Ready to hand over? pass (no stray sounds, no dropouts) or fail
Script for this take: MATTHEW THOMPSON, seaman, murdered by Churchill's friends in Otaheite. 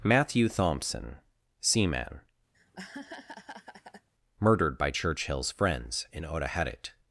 fail